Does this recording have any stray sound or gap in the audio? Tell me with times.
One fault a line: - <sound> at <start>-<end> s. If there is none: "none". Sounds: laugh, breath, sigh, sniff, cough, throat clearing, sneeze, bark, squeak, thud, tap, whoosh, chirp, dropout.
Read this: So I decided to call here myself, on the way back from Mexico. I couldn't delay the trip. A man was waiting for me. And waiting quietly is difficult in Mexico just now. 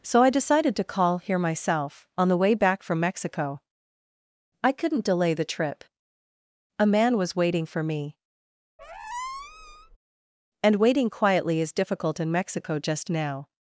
- squeak at 8.8-10.0 s